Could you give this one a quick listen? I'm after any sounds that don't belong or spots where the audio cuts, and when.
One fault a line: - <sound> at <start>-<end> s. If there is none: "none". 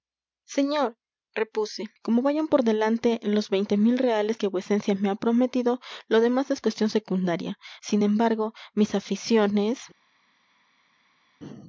none